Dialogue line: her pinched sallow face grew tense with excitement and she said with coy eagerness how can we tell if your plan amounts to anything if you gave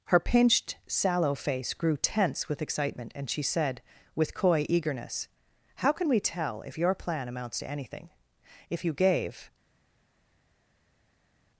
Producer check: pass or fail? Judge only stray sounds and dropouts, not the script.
pass